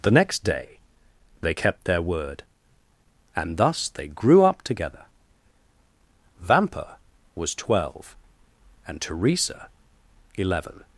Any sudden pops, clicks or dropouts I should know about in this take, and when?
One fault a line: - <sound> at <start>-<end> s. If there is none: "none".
none